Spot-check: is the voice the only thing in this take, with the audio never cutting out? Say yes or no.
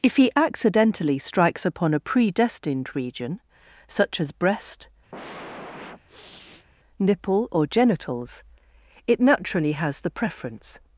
no